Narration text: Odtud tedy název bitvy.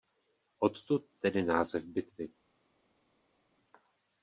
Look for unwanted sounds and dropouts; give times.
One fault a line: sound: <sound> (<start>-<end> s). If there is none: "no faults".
no faults